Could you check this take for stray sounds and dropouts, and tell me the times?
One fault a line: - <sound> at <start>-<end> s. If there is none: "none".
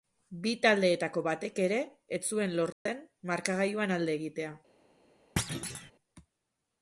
- dropout at 2.7-2.9 s
- thud at 5.4-5.9 s